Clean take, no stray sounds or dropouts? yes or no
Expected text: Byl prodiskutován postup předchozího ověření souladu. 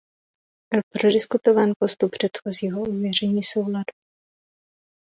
yes